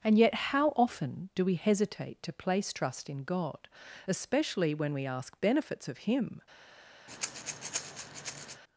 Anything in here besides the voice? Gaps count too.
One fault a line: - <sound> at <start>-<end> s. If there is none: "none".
- breath at 7.1-8.6 s